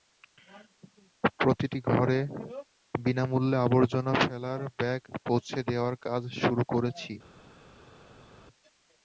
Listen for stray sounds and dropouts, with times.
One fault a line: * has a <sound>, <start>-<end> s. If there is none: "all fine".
all fine